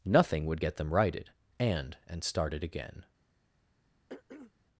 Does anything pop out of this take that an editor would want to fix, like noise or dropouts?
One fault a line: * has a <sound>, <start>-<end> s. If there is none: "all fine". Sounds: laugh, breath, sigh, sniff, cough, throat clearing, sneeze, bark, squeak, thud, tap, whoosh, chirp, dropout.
* has a throat clearing, 4.1-4.5 s